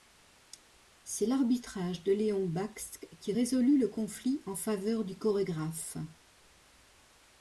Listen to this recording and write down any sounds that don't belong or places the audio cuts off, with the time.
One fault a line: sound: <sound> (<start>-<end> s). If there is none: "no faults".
no faults